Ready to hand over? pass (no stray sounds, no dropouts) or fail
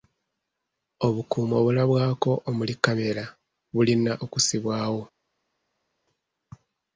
pass